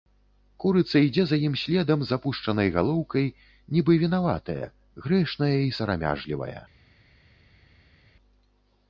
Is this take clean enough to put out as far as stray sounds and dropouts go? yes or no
yes